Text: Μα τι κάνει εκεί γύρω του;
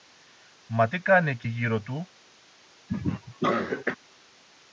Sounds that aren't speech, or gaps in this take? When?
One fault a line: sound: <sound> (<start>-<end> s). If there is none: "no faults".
sound: cough (2.9-4.0 s)